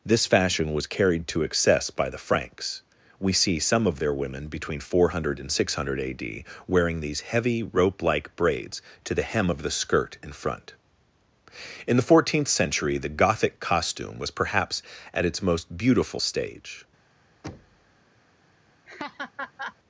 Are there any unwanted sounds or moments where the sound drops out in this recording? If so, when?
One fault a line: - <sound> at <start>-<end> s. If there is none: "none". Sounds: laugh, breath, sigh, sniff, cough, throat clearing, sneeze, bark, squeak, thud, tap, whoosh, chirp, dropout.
- thud at 17.4-18.0 s
- laugh at 18.9-19.8 s